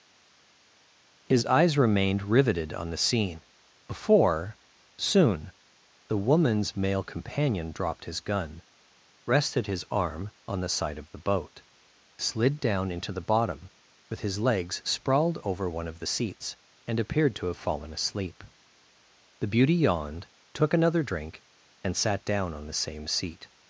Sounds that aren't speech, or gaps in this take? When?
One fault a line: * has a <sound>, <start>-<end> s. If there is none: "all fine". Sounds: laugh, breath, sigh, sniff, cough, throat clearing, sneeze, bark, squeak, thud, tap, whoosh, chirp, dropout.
all fine